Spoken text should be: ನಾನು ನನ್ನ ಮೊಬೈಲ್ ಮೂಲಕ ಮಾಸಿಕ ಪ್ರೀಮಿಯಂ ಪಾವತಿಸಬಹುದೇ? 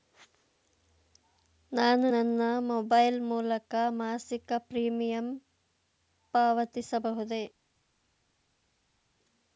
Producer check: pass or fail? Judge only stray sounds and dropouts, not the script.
pass